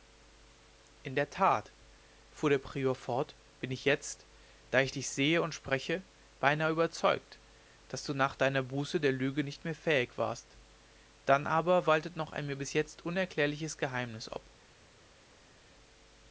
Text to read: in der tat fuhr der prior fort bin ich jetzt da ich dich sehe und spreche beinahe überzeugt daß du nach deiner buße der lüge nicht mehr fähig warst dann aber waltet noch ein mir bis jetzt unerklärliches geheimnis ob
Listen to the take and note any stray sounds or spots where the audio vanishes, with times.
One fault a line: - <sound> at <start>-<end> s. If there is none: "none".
none